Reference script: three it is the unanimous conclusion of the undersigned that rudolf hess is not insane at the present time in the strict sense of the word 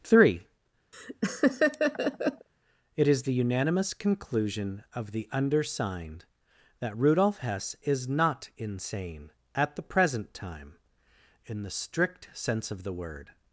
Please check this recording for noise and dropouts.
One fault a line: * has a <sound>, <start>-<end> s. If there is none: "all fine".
* has a laugh, 0.9-2.5 s